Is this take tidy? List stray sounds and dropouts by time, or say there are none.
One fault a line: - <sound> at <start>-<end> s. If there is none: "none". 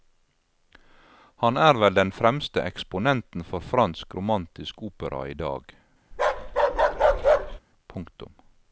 - bark at 6.1-7.6 s